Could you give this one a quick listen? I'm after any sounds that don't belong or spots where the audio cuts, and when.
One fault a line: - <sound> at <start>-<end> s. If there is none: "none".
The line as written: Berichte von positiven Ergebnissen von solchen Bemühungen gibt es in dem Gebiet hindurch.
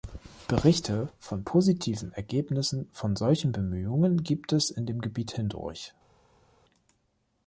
none